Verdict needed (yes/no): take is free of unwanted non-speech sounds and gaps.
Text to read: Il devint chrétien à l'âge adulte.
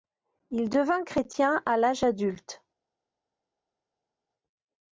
yes